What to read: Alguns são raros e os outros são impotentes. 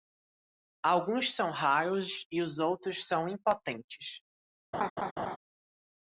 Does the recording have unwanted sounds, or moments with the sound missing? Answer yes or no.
yes